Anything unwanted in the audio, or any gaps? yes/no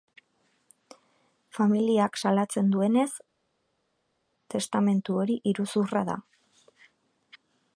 no